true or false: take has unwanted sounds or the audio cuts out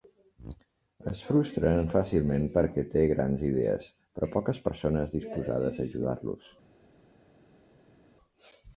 false